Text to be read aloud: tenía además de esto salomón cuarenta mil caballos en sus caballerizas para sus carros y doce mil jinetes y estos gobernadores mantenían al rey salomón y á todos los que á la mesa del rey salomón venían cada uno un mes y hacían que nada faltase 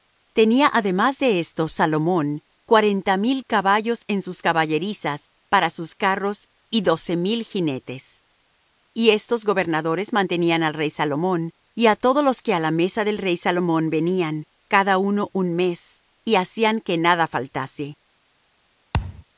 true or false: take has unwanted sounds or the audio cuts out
true